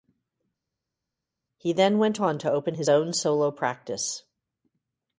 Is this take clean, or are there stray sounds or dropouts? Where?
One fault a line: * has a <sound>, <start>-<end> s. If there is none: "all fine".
all fine